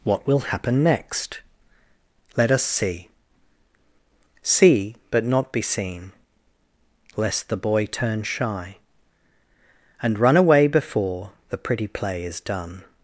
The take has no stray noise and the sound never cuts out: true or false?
true